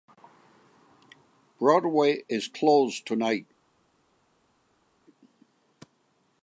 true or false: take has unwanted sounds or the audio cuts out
false